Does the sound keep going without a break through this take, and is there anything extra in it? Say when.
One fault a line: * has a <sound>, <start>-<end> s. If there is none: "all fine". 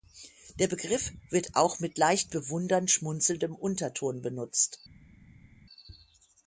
all fine